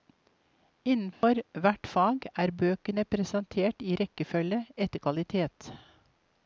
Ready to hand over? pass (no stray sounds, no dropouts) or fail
fail